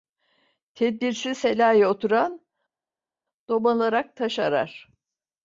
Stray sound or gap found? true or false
false